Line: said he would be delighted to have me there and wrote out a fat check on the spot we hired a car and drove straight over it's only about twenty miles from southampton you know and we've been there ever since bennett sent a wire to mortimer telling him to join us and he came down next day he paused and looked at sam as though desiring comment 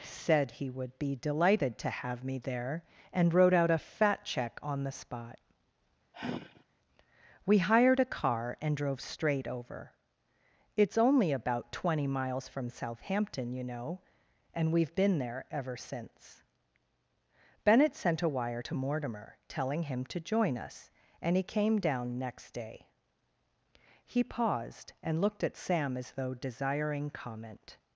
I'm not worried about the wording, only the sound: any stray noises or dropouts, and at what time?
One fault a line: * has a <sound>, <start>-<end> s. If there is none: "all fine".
* has a sigh, 6.1-6.6 s